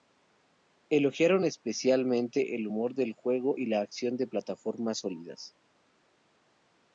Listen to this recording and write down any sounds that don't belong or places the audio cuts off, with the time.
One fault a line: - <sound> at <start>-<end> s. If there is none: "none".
none